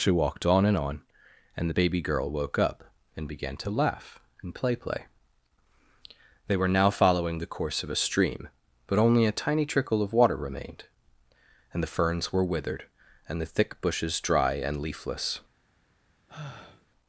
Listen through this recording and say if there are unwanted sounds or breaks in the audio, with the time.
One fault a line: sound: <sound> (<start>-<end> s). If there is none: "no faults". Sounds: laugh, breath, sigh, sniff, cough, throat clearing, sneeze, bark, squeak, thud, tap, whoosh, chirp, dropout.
sound: sigh (16.3-16.9 s)